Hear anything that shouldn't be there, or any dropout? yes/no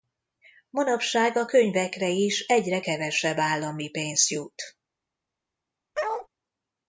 yes